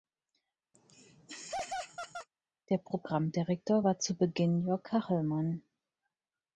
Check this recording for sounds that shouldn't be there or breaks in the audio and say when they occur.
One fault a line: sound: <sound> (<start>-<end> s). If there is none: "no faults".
sound: laugh (0.7-2.3 s)